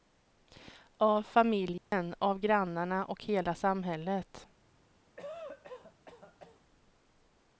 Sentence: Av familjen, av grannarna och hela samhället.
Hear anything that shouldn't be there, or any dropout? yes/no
yes